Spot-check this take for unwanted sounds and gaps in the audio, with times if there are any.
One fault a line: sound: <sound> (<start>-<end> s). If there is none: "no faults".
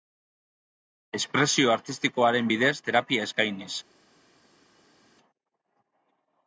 no faults